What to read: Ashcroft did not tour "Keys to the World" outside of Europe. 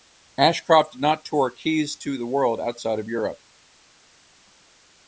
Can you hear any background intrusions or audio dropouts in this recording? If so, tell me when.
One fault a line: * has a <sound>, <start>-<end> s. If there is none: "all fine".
all fine